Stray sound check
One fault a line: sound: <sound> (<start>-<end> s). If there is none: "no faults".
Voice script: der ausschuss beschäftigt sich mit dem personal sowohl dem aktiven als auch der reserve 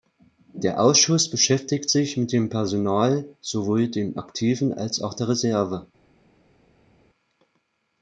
no faults